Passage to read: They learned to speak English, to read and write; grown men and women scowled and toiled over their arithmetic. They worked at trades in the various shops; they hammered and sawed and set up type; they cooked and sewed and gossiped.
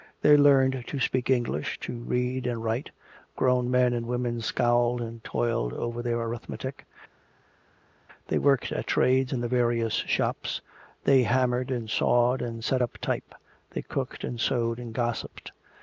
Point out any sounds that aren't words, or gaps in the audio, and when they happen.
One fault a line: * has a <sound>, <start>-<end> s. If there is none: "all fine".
all fine